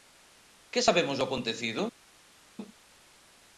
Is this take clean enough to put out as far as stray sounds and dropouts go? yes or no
yes